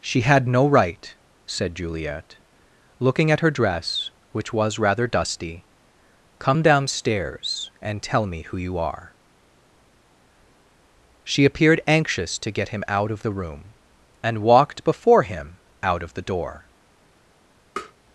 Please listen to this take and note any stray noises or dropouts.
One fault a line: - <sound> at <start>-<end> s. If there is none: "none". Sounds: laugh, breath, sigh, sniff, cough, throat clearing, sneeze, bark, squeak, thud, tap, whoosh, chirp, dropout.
- tap at 17.8-17.9 s